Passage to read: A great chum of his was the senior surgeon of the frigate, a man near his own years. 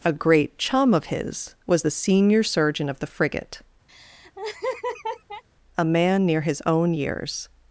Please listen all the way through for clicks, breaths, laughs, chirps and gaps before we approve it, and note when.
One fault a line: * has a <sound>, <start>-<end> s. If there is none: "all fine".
* has a laugh, 3.9-5.4 s